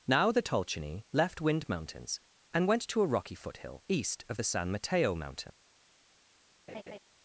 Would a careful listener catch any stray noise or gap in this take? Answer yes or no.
yes